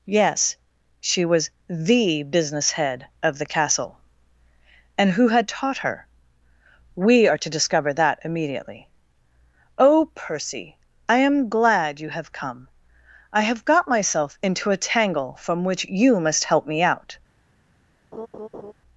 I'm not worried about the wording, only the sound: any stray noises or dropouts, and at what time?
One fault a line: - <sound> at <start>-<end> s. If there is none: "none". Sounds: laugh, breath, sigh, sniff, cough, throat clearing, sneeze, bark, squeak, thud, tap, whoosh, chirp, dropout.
- laugh at 18.1-18.7 s